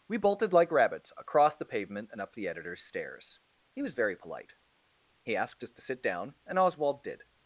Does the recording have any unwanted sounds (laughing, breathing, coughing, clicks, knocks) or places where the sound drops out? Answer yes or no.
no